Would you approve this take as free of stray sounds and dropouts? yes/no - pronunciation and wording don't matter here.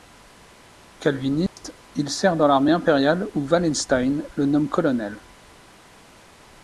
no